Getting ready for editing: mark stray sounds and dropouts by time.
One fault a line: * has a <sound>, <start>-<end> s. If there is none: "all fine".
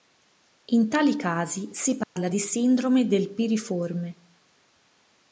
* has a dropout, 2.0-2.2 s